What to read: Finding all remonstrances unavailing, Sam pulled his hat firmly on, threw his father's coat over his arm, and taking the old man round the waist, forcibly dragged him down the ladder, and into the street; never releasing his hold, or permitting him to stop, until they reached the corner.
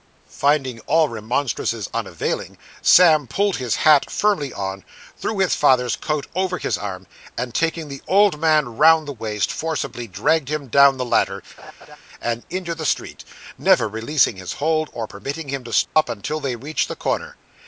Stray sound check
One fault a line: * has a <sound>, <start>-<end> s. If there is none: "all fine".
* has a laugh, 11.6-12.0 s
* has a dropout, 15.8-16.0 s